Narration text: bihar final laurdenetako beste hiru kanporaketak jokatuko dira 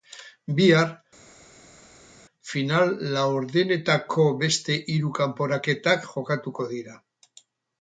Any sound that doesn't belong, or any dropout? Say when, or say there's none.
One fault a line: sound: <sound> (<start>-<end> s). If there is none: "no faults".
no faults